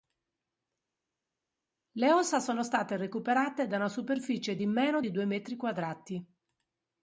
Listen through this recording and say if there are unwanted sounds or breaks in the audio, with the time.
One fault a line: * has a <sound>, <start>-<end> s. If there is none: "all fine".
all fine